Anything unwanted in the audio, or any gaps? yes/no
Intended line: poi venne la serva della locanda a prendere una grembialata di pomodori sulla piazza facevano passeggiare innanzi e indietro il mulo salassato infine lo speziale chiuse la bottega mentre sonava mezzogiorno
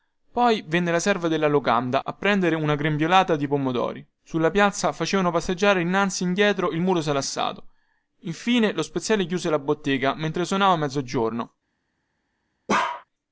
yes